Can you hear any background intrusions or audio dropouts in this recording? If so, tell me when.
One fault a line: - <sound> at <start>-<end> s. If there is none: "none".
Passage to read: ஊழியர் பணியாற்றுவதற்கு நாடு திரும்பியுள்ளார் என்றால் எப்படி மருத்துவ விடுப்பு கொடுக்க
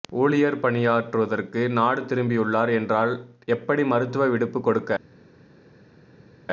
none